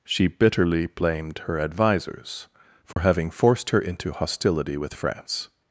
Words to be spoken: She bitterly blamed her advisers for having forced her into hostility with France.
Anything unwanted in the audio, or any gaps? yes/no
yes